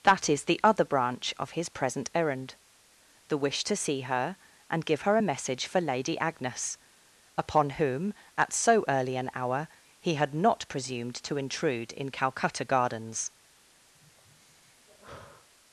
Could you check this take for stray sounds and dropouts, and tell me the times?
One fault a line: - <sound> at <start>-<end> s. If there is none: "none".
- sigh at 13.9-15.5 s